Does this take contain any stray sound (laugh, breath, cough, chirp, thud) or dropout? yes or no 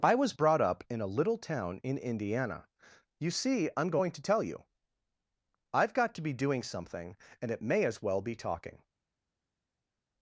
no